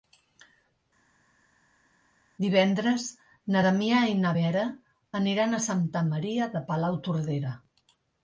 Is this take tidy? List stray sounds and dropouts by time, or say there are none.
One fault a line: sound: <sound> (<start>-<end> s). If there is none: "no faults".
no faults